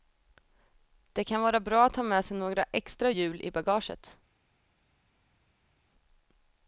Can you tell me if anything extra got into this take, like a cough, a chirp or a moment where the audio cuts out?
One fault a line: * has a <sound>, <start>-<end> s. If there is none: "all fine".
all fine